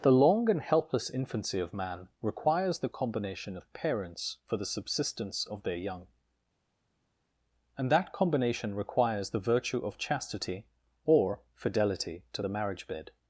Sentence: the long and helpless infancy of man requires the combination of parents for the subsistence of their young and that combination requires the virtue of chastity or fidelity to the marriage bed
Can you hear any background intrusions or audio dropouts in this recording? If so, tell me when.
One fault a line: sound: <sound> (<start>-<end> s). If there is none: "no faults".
no faults